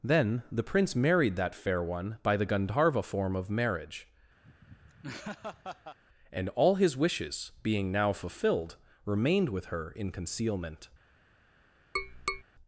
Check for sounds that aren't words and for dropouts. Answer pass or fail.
fail